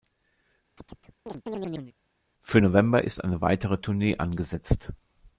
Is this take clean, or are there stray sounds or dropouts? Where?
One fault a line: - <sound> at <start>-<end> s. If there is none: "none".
- chirp at 0.8-1.9 s